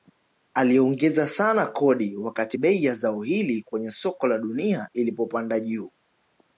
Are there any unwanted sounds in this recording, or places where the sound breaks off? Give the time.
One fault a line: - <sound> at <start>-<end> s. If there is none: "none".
none